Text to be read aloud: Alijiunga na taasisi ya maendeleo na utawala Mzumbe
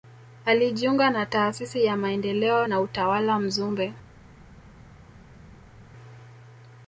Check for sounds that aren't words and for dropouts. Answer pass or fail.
pass